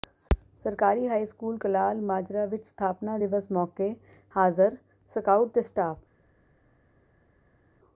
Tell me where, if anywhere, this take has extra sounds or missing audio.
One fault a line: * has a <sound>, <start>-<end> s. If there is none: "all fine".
all fine